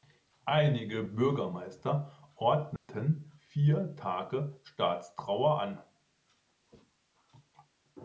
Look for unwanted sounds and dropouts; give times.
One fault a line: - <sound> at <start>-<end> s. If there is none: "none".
- dropout at 2.8-2.9 s